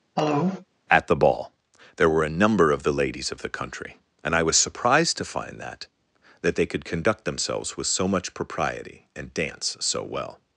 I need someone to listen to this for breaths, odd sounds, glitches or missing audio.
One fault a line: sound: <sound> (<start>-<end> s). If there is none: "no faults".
sound: cough (0.2-0.7 s)